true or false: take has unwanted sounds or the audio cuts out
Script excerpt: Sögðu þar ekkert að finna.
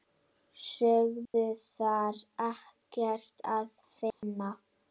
true